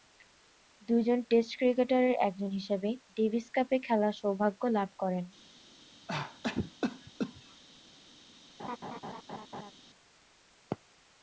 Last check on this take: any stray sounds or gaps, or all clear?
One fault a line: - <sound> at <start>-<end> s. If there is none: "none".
- cough at 6.1-7.6 s
- laugh at 8.6-9.7 s